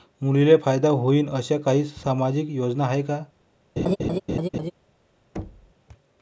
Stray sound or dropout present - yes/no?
yes